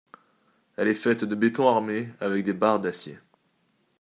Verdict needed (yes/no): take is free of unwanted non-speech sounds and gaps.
yes